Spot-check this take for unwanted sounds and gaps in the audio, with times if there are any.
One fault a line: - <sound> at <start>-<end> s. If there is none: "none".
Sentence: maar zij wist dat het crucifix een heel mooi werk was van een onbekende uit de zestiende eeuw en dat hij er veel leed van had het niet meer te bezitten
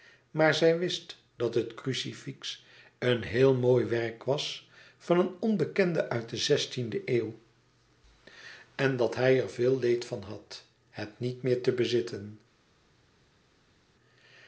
none